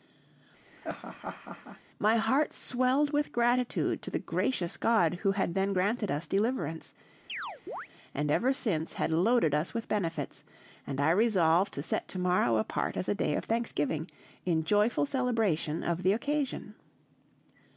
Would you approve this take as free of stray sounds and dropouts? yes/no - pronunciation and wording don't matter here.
no